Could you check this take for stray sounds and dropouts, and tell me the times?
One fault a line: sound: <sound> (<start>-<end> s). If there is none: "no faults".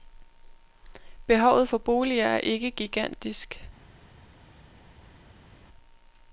no faults